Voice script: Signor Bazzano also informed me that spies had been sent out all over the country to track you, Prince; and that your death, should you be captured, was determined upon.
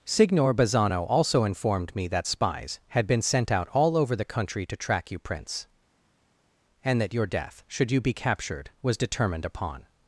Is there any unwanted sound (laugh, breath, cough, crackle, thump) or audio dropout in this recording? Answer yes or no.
no